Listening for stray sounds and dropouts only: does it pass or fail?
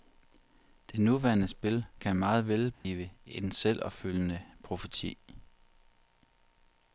fail